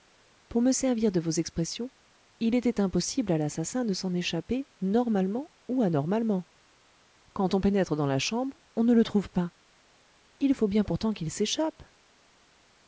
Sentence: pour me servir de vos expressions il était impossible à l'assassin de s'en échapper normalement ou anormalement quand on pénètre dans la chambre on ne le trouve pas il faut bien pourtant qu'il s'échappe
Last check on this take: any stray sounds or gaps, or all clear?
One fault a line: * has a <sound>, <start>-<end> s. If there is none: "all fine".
all fine